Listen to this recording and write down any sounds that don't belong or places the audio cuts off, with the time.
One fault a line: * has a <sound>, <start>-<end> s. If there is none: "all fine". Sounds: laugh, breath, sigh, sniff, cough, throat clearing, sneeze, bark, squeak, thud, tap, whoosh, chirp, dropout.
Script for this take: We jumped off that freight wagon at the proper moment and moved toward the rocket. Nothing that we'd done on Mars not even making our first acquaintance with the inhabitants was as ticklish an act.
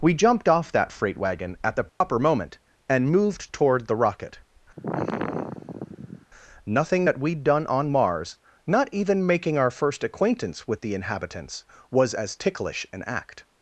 * has a dropout, 1.9-2.0 s
* has a sigh, 4.8-6.3 s